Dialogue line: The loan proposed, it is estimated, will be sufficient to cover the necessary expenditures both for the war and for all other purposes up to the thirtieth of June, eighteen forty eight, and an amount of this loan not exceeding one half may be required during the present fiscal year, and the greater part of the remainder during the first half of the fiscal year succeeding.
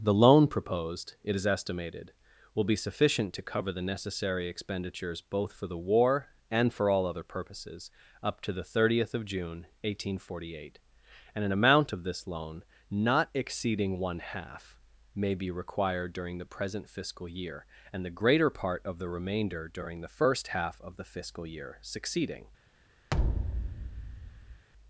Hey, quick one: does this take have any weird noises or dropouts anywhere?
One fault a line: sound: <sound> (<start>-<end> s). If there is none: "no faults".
sound: thud (23.1-24.6 s)